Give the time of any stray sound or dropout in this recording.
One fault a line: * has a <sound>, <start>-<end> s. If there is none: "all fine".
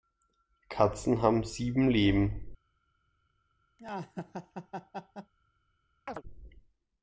* has a laugh, 3.8-5.3 s
* has a chirp, 6.1-6.2 s